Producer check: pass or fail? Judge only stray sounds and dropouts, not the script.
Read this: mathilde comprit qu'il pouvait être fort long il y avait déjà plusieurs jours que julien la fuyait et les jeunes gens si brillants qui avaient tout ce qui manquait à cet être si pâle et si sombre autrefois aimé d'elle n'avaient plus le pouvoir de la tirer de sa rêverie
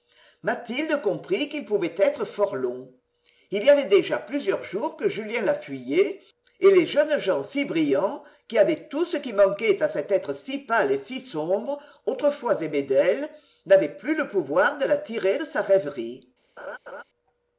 fail